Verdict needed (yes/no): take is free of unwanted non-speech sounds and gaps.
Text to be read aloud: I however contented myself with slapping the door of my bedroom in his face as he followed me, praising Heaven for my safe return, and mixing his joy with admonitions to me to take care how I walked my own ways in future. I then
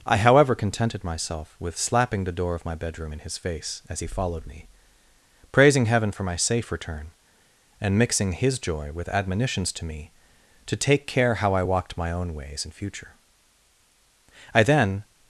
yes